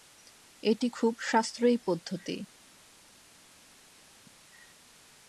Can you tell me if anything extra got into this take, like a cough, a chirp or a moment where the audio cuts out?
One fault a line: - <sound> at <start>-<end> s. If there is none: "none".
none